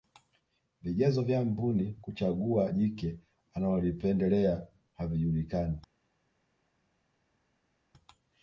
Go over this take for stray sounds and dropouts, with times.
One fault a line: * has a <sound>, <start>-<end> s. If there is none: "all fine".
all fine